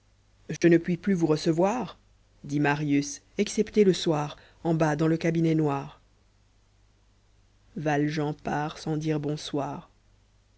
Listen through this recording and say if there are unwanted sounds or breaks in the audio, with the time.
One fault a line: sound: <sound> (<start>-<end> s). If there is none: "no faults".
sound: dropout (0.6-0.6 s)